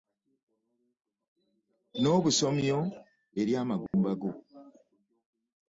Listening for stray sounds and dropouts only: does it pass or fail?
fail